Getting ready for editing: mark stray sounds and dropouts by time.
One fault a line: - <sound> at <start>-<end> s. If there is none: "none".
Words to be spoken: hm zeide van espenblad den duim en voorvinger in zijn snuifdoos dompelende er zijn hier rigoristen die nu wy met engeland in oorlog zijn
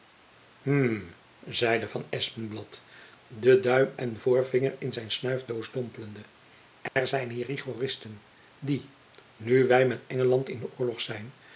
- dropout at 6.9-7.0 s